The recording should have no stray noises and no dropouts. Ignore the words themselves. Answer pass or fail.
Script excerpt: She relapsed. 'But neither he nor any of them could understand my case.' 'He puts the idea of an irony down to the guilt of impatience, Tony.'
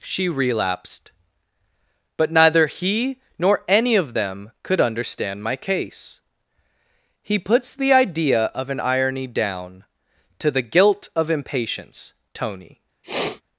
fail